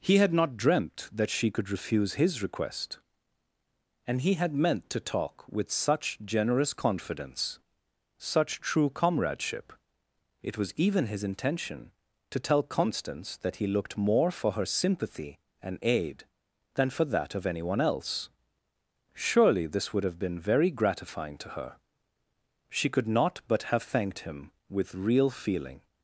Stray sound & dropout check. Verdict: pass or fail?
pass